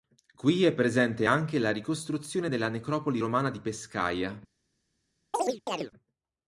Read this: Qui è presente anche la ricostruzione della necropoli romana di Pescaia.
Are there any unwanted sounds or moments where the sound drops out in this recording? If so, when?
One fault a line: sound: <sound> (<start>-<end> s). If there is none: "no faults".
sound: chirp (5.3-5.9 s)